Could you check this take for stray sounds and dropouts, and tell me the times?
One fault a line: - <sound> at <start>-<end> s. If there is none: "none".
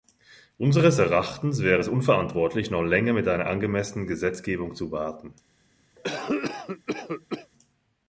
- cough at 6.0-7.5 s